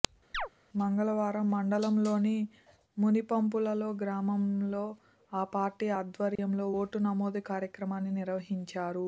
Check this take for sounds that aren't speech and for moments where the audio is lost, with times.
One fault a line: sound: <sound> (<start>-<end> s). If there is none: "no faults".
sound: chirp (0.3-0.5 s)
sound: dropout (6.4-6.4 s)